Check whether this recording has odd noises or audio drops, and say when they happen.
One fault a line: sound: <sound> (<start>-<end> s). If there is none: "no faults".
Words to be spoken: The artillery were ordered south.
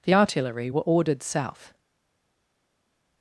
no faults